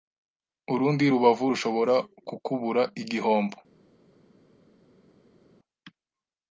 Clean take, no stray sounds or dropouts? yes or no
yes